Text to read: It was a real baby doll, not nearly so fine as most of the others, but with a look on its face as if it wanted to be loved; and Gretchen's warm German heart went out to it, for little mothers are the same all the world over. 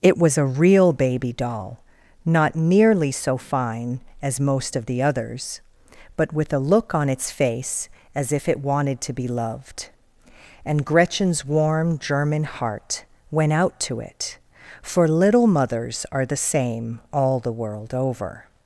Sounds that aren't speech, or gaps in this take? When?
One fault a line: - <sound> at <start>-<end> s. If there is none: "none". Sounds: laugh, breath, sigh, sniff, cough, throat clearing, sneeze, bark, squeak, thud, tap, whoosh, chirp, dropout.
none